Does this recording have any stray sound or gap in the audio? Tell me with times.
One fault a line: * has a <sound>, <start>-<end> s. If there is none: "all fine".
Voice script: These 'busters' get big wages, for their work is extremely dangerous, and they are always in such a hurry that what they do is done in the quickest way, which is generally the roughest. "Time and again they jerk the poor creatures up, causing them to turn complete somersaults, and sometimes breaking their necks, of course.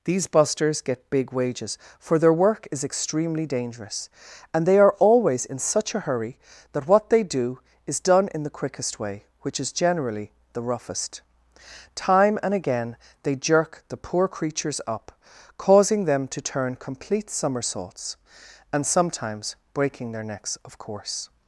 all fine